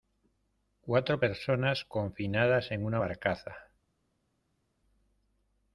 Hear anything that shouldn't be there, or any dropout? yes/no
no